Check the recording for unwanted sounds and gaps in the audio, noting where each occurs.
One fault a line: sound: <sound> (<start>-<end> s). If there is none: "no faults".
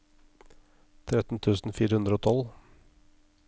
no faults